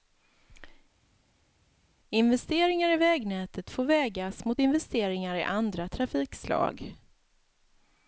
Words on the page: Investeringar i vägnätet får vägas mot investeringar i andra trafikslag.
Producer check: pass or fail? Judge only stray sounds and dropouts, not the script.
pass